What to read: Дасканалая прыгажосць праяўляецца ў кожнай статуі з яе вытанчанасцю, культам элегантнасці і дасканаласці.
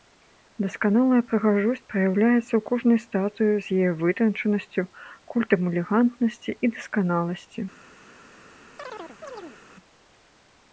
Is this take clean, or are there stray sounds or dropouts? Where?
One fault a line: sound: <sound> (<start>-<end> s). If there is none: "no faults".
sound: chirp (8.8-9.6 s)